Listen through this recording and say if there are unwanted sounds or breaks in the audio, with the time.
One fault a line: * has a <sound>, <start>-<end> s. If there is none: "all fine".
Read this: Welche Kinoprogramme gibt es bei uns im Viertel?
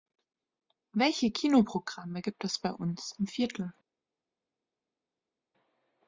all fine